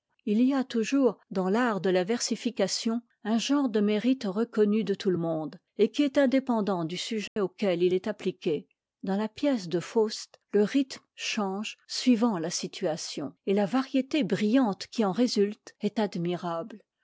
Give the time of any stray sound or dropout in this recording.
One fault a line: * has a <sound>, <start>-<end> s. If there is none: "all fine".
* has a dropout, 7.3-7.4 s